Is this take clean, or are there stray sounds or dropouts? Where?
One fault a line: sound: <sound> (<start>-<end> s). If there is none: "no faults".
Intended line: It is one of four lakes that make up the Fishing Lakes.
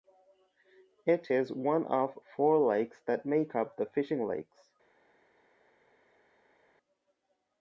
no faults